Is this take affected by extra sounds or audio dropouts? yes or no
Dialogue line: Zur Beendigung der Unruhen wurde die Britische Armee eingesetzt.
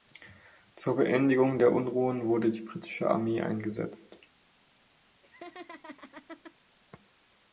yes